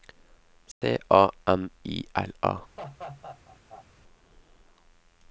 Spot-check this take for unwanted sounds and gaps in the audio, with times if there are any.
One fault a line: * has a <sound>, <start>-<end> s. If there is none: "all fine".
* has a dropout, 0.7-0.8 s
* has a laugh, 2.8-3.9 s